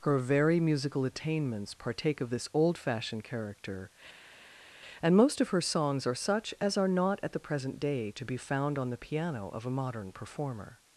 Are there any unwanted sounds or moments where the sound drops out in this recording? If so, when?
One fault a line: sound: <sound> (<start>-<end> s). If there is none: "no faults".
no faults